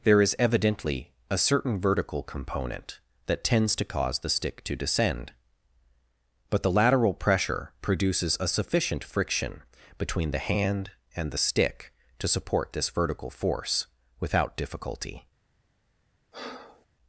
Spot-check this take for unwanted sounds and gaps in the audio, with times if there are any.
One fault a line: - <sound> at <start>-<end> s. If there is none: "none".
- breath at 16.3-16.9 s